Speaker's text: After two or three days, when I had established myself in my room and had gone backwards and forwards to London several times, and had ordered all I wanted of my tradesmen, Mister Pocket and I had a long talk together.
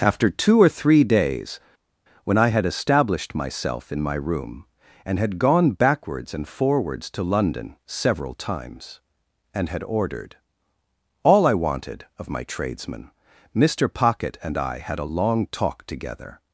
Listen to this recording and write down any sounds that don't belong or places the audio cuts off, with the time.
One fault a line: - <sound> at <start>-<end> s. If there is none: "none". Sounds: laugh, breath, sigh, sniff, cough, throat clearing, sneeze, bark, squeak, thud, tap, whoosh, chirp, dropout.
none